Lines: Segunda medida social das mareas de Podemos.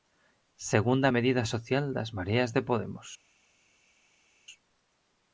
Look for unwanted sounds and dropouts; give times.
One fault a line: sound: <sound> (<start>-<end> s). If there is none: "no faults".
no faults